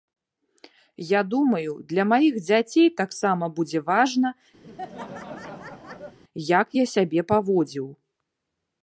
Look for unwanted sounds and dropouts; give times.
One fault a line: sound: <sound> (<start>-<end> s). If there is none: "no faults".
sound: laugh (4.6-6.2 s)